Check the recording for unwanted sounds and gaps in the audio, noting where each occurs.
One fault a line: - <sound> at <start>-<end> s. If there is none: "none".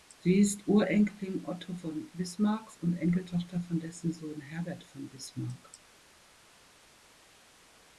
none